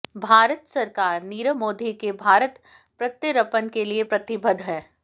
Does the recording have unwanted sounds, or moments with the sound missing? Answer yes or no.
no